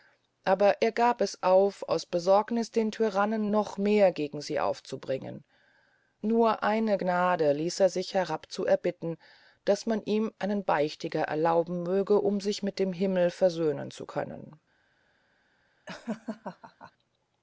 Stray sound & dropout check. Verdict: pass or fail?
fail